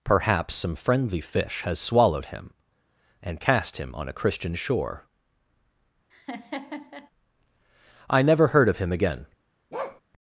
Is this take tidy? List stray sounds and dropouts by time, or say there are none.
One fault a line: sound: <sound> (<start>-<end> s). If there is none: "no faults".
sound: laugh (6.1-7.1 s)
sound: bark (9.7-10.0 s)